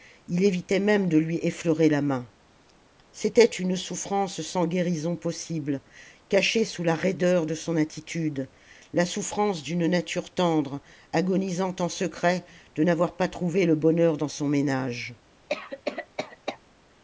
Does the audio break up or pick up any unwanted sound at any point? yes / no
yes